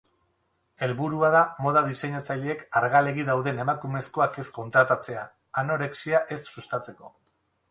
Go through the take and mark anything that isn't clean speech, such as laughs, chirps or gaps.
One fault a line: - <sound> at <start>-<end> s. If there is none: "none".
none